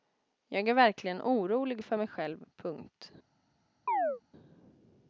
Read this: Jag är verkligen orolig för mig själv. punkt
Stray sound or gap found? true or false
true